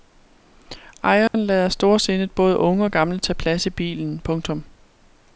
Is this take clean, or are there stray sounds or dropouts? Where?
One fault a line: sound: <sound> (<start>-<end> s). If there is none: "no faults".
sound: dropout (1.3-1.3 s)